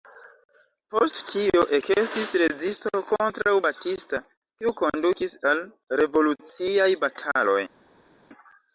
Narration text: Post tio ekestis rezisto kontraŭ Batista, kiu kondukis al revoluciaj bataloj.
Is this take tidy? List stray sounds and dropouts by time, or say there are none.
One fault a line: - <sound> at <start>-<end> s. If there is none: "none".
none